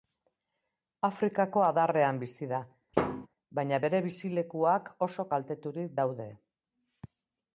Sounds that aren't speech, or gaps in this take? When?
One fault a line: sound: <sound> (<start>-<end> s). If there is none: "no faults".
sound: thud (2.9-3.3 s)